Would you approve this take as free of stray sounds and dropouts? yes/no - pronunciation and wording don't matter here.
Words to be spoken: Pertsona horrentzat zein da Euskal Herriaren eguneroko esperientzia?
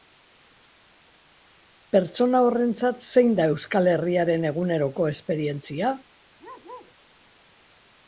no